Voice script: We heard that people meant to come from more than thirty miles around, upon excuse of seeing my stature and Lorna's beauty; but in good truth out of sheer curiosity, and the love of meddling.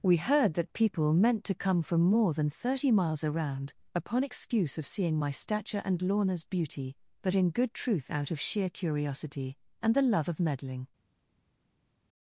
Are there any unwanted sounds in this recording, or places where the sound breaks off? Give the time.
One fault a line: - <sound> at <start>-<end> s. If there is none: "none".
none